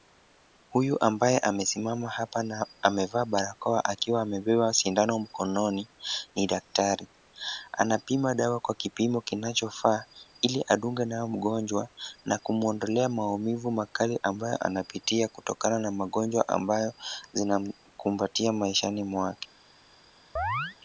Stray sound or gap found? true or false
true